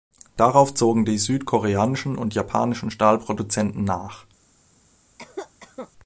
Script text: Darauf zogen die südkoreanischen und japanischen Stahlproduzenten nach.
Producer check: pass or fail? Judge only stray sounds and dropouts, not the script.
fail